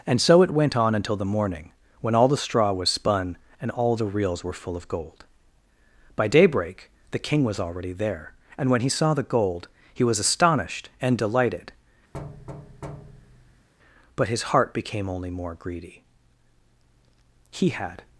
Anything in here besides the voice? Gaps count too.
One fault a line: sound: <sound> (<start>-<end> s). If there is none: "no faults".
sound: thud (12.1-13.7 s)